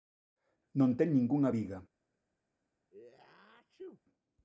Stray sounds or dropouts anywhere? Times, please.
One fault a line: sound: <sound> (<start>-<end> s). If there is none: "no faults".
sound: sneeze (2.9-4.0 s)